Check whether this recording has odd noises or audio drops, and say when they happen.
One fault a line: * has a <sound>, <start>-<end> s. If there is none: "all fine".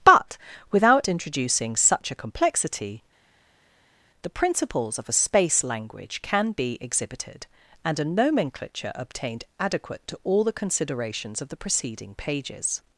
all fine